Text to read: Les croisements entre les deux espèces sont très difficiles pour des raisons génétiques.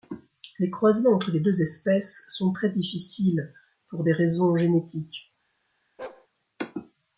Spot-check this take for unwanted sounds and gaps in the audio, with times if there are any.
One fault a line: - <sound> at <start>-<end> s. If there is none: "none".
- bark at 6.0-6.3 s